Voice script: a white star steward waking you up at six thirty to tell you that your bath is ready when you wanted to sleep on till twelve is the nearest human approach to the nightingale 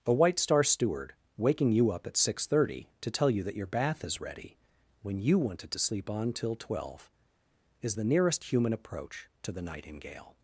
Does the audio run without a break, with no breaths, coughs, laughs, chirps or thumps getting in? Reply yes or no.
yes